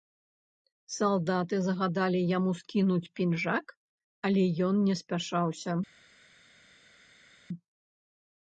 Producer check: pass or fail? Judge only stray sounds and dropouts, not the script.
pass